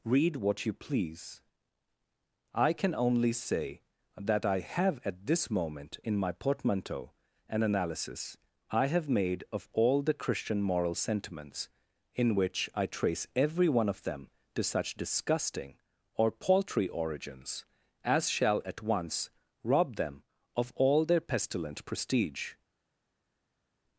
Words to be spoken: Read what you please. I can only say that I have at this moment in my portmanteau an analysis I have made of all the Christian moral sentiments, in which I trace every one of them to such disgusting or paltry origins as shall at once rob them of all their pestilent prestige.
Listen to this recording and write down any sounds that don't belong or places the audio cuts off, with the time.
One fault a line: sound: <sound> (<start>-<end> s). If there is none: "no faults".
no faults